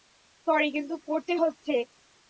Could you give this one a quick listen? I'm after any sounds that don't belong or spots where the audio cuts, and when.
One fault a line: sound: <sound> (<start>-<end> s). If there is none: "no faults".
no faults